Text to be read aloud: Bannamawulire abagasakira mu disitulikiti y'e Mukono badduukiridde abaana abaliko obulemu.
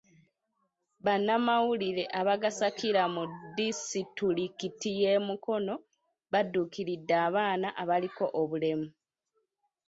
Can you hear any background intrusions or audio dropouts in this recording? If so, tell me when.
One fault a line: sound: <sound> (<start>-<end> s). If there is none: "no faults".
no faults